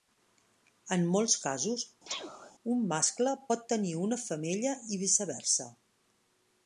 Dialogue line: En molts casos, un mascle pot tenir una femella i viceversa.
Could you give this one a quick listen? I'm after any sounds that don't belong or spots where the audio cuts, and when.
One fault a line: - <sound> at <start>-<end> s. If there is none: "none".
- sneeze at 2.0-2.5 s